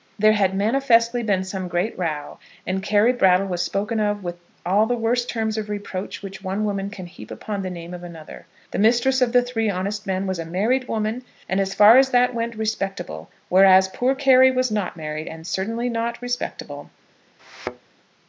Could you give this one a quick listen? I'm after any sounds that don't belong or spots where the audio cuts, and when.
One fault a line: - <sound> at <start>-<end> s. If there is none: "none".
- thud at 17.4-17.9 s